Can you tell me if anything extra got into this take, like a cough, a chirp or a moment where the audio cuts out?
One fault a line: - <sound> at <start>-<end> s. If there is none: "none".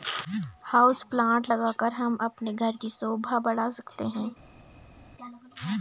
none